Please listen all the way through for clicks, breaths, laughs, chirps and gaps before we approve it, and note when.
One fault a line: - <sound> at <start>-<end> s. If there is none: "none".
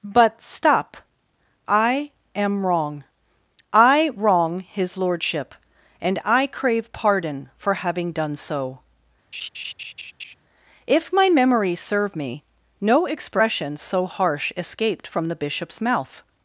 - laugh at 9.3-10.3 s